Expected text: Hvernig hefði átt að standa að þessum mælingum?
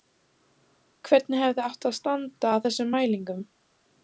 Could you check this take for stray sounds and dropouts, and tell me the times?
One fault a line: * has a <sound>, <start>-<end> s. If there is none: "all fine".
all fine